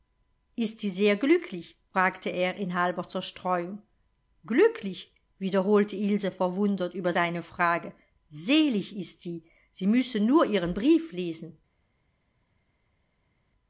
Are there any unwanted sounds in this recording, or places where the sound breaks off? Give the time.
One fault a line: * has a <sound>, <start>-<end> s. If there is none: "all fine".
all fine